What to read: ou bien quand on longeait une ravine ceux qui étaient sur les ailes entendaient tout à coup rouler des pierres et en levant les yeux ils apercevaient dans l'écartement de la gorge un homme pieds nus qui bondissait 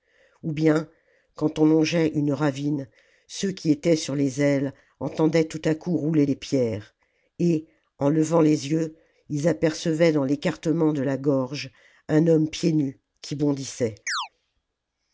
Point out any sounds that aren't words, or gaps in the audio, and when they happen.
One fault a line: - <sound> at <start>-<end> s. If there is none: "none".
- chirp at 14.1-14.3 s